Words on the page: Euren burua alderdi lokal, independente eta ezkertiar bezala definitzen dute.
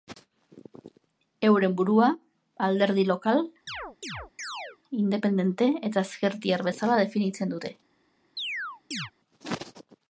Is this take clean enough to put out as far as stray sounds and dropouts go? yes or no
no